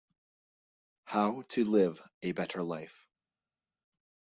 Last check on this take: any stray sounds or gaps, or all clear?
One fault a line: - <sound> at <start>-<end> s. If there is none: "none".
none